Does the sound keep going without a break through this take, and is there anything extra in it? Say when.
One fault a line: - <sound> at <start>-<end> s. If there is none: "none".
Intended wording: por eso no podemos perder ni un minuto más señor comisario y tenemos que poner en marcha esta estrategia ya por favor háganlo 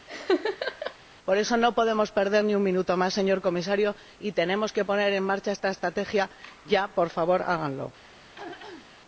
- laugh at 0.1-1.0 s
- throat clearing at 8.2-8.9 s